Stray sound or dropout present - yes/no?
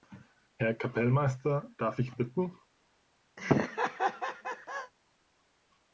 yes